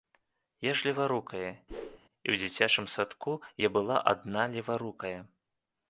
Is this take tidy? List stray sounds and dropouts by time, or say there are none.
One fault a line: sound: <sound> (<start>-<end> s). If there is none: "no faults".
sound: whoosh (1.7-2.0 s)